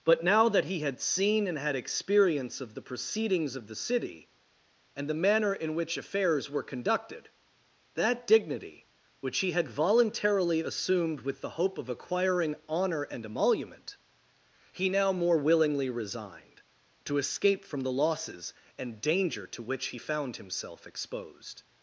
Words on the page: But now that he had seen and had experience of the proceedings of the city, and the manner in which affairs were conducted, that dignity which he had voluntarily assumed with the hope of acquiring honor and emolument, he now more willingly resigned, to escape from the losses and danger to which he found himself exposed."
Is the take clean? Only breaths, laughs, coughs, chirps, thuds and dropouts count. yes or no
yes